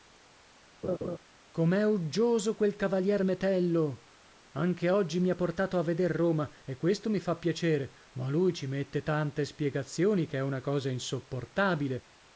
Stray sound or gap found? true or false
true